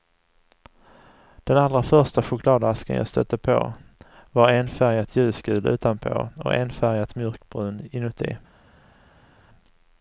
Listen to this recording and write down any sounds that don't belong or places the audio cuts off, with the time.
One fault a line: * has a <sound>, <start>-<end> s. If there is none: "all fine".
all fine